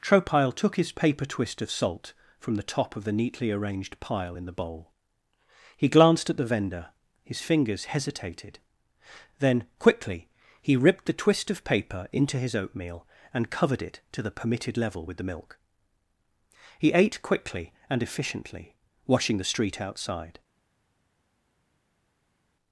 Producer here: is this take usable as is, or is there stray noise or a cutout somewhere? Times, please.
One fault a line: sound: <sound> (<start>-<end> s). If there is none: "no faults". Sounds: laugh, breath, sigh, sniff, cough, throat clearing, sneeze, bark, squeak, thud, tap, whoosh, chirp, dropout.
no faults